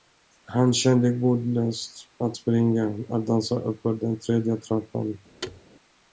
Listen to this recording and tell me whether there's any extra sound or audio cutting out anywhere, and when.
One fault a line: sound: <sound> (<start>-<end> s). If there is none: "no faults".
sound: thud (5.4-5.6 s)